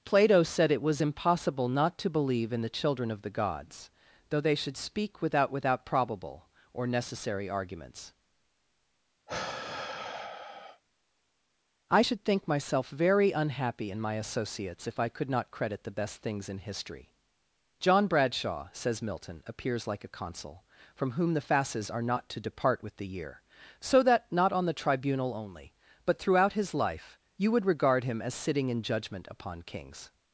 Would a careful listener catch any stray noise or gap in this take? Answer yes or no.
yes